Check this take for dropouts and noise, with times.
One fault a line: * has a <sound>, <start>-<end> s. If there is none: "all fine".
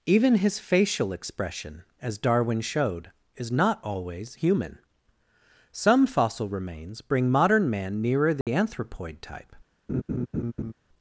* has a dropout, 8.4-8.5 s
* has a laugh, 9.9-10.7 s